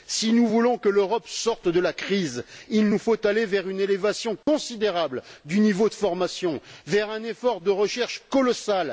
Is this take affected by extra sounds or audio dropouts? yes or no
yes